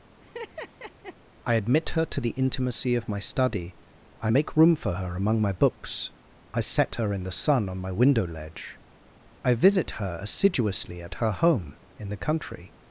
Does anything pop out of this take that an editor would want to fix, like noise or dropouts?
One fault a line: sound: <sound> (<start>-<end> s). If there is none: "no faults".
sound: laugh (0.2-1.2 s)